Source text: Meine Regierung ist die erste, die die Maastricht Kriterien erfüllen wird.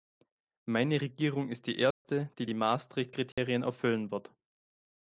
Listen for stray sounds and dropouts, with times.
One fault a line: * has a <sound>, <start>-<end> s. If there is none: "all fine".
* has a dropout, 1.9-2.0 s
* has a dropout, 3.3-3.4 s